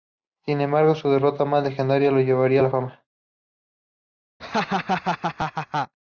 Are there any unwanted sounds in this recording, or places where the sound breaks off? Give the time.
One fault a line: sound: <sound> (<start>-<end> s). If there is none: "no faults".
sound: laugh (4.4-5.9 s)